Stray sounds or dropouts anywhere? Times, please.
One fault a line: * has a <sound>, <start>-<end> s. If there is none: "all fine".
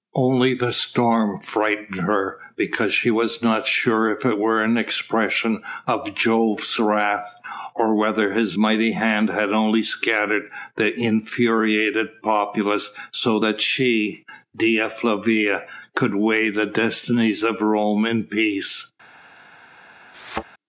* has a thud, 20.1-20.4 s